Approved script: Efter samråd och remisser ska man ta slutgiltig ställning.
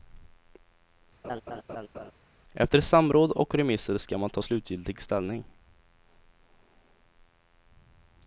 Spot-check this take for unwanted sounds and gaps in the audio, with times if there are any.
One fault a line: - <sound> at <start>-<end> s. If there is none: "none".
- laugh at 1.2-2.1 s